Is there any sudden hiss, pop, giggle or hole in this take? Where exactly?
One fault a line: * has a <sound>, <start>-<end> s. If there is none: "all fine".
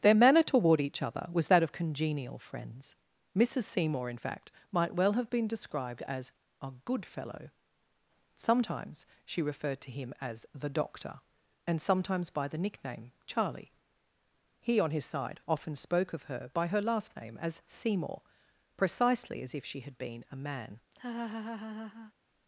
* has a laugh, 20.9-22.1 s